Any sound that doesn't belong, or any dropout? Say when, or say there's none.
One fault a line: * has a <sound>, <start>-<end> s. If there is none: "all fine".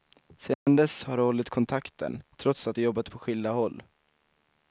* has a dropout, 0.5-0.7 s